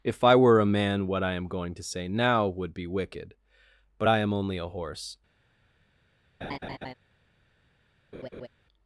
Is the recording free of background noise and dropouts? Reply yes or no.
no